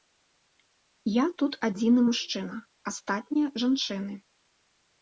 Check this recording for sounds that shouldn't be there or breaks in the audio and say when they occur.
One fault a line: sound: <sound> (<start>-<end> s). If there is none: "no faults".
no faults